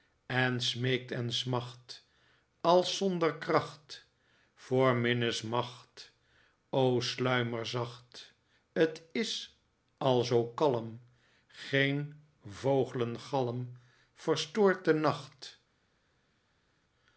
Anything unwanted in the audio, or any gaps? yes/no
no